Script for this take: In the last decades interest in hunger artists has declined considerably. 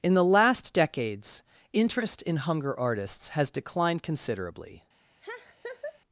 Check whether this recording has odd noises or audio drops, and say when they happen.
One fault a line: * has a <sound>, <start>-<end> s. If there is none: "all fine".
* has a laugh, 5.2-6.0 s